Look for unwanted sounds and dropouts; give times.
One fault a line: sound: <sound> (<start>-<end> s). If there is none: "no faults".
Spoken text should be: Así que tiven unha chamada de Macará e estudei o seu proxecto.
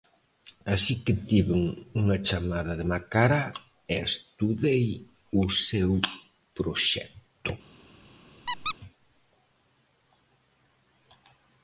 sound: squeak (8.5-8.7 s)